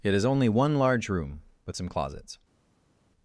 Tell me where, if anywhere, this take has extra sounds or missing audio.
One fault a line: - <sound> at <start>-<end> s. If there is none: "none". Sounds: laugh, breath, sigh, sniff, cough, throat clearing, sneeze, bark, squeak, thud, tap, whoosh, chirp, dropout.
none